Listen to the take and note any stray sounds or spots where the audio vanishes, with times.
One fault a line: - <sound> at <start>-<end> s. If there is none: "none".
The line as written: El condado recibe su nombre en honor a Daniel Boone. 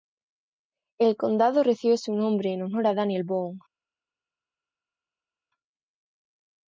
none